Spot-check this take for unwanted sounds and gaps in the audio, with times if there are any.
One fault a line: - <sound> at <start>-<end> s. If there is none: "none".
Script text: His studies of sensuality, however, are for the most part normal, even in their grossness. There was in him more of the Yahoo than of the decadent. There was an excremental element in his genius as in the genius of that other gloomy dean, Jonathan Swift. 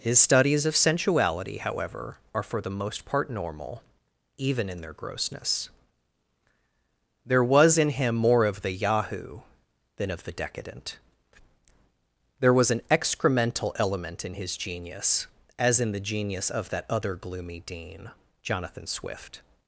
none